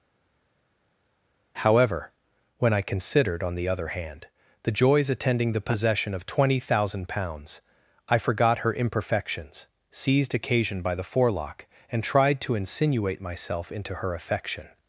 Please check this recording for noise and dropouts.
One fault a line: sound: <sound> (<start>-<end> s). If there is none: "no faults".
no faults